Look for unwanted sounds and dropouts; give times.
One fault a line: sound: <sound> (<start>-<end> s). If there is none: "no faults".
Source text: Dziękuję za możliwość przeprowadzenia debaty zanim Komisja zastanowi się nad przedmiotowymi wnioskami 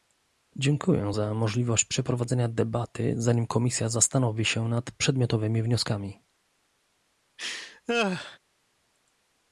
sound: laugh (7.4-8.4 s)